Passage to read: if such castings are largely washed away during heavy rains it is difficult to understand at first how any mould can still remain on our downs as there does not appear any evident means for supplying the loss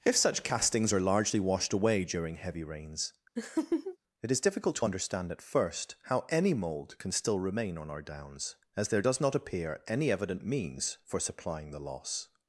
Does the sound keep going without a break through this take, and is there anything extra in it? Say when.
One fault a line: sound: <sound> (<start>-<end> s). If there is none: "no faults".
sound: laugh (3.4-4.0 s)